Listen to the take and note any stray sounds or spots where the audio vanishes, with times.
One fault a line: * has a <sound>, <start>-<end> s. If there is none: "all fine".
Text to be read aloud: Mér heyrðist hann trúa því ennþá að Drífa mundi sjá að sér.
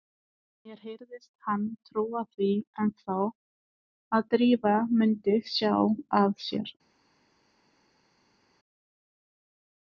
all fine